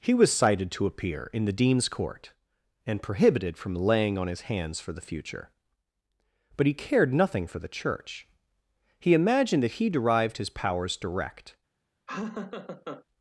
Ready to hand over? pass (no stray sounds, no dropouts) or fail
fail